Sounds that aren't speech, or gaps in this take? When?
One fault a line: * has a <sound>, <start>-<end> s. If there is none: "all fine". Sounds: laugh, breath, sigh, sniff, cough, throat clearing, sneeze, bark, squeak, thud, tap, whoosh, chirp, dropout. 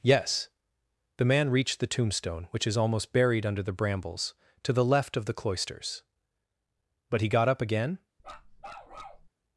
* has a bark, 8.2-9.3 s